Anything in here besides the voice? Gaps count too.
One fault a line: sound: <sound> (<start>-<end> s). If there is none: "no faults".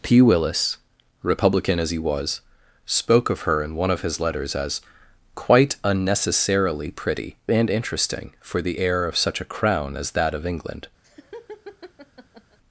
sound: laugh (11.0-12.6 s)